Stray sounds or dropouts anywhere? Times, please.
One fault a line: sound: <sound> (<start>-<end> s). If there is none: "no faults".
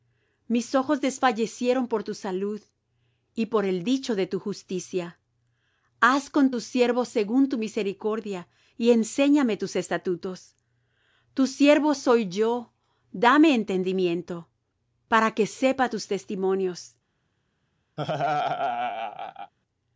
sound: laugh (18.0-19.5 s)